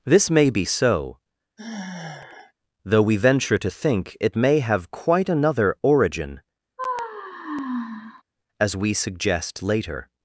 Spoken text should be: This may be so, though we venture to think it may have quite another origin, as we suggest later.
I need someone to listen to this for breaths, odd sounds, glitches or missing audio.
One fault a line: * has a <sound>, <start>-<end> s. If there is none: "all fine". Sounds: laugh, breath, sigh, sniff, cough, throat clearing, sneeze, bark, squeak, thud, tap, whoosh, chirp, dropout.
* has a sigh, 1.6-2.5 s
* has a sigh, 6.8-8.2 s